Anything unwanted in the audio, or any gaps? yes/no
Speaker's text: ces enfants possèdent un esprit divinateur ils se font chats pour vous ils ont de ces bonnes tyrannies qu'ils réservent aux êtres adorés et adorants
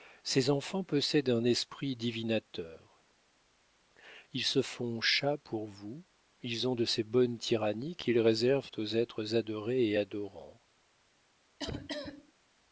yes